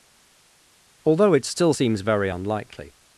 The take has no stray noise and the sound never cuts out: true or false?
true